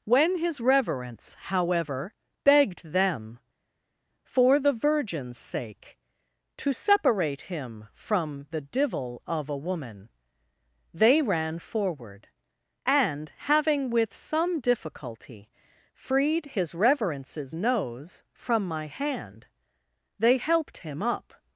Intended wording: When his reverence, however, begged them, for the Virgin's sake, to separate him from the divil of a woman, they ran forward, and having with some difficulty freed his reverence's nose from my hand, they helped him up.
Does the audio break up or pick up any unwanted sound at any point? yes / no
no